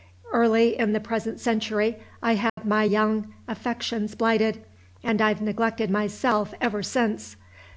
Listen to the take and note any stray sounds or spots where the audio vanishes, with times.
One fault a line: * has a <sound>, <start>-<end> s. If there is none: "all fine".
* has a dropout, 2.5-2.6 s